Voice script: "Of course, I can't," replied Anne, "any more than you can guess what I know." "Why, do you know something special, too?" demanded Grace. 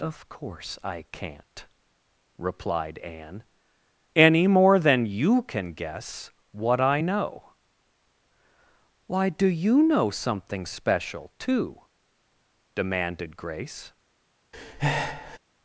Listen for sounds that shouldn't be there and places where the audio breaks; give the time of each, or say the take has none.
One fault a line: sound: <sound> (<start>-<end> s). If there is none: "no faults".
sound: breath (14.5-15.4 s)